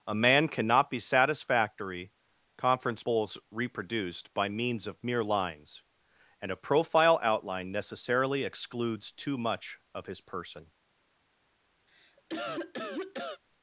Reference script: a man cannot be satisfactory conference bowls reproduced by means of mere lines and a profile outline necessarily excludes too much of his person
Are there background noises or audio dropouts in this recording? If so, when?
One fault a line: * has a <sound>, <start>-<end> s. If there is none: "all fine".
* has a cough, 11.9-13.4 s